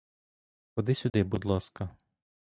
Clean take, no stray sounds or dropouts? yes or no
no